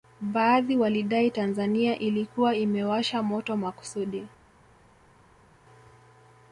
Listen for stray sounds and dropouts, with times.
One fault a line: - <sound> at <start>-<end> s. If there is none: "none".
none